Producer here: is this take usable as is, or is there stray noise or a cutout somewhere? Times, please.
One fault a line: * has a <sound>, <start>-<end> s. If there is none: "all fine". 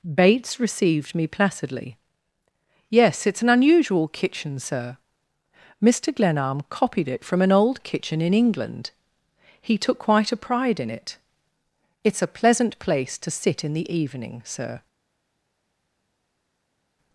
all fine